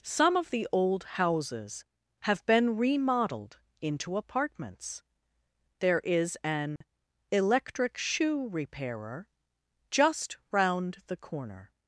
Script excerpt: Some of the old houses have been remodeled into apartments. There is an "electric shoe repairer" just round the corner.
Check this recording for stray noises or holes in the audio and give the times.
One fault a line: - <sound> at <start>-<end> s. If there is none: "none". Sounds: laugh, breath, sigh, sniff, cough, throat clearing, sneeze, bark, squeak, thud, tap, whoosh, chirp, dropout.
- dropout at 6.8-6.8 s